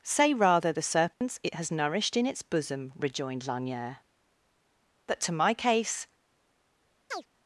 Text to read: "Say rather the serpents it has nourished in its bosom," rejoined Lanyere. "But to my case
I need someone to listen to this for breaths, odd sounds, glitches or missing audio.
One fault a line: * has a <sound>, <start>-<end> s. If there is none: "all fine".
* has a dropout, 1.1-1.2 s
* has a chirp, 7.1-7.3 s